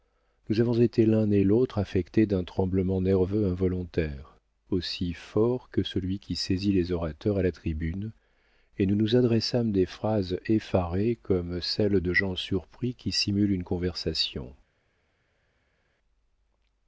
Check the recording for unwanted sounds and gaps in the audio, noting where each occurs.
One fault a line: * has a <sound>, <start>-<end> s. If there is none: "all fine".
all fine